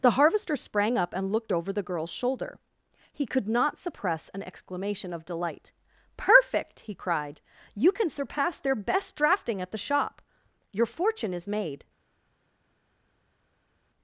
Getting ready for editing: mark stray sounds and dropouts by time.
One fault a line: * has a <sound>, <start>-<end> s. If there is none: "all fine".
all fine